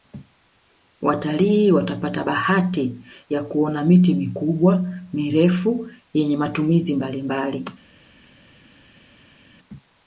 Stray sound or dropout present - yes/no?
no